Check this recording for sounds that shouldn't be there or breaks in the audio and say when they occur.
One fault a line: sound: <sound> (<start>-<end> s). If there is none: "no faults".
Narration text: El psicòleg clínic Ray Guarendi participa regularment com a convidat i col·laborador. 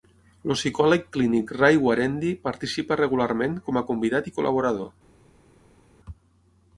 no faults